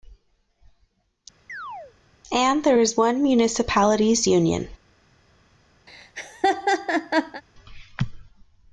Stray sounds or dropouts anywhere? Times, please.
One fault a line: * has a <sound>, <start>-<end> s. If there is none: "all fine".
* has a chirp, 1.5-1.9 s
* has a laugh, 5.9-7.4 s